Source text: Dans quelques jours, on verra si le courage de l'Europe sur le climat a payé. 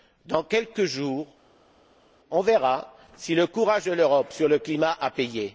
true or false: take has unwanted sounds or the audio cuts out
false